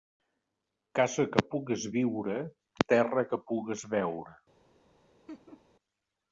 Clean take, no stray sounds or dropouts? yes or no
no